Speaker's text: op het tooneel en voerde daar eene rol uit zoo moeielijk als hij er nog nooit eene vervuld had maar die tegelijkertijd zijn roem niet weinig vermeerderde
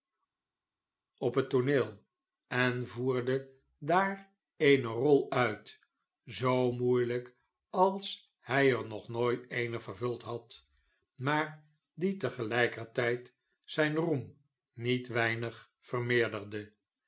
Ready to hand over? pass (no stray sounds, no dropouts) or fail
pass